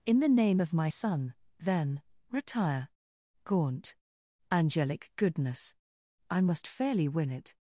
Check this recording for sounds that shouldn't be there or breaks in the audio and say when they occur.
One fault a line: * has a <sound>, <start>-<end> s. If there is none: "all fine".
all fine